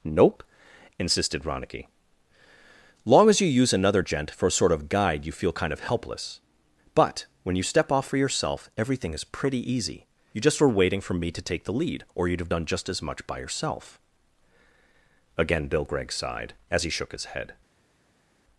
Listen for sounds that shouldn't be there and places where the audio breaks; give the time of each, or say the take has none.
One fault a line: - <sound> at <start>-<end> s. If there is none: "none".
none